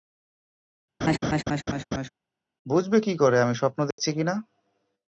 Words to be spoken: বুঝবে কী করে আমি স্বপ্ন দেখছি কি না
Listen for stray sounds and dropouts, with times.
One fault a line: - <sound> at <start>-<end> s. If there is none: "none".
- laugh at 1.0-2.1 s
- dropout at 3.9-4.0 s